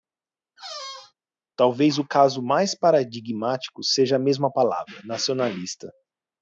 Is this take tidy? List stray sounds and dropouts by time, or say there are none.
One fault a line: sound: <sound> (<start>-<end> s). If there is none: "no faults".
sound: squeak (0.6-1.1 s)